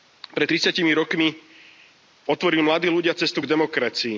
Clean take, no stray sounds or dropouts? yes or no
yes